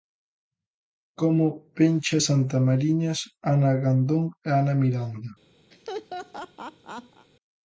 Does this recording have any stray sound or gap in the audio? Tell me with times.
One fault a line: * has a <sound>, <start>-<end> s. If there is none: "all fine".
* has a laugh, 5.7-7.3 s